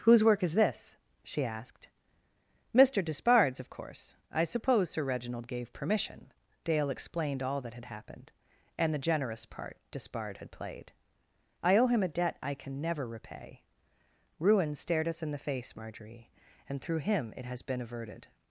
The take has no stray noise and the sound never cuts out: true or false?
true